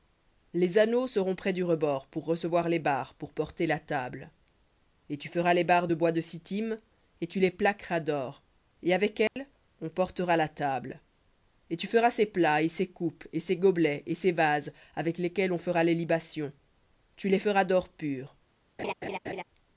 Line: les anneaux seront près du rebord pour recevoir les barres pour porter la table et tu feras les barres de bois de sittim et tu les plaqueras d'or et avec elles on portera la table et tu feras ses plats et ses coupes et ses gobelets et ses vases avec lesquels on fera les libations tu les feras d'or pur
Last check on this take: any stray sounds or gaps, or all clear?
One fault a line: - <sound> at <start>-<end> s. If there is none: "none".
- dropout at 9.3-9.4 s
- laugh at 18.8-19.4 s